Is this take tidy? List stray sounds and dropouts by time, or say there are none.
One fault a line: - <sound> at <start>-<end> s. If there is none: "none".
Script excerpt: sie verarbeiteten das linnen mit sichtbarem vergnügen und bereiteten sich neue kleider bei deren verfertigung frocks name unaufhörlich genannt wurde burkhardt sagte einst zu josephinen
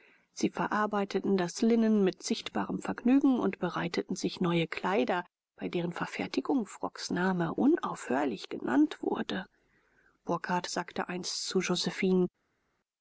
none